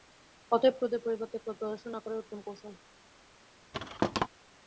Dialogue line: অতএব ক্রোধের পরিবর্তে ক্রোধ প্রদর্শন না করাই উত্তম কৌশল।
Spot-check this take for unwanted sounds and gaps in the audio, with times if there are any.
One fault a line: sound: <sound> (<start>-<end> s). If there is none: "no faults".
sound: thud (3.7-4.3 s)